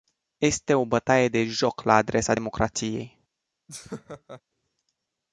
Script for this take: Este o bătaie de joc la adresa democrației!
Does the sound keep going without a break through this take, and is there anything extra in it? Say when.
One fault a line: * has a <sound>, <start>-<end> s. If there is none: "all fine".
* has a laugh, 3.7-4.4 s